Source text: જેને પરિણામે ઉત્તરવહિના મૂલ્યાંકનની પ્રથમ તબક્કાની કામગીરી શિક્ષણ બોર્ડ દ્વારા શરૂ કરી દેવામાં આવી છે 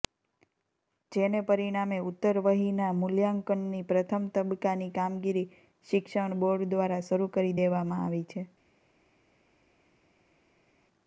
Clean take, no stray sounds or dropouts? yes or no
yes